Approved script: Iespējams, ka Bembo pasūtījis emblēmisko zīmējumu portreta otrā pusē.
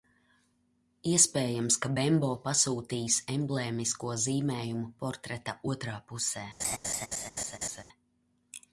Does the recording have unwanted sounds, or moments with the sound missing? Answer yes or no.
yes